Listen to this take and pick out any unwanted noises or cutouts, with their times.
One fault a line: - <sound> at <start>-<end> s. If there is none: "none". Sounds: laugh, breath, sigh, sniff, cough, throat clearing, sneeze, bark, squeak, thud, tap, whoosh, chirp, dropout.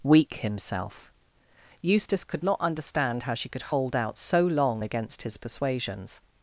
none